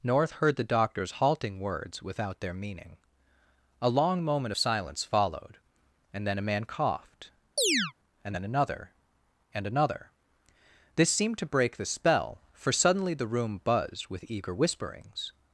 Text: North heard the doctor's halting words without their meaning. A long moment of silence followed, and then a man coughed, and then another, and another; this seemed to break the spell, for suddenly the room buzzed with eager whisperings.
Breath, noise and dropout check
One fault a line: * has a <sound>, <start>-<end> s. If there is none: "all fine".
* has a chirp, 7.6-7.9 s